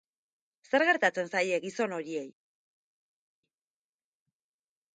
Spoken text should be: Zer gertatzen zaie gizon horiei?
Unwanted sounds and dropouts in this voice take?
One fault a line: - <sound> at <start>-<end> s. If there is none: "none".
none